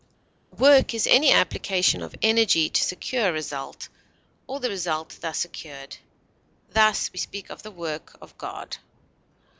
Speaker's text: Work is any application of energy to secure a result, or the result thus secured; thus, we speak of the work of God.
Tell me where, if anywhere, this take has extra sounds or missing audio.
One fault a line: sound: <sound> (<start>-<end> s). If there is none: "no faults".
no faults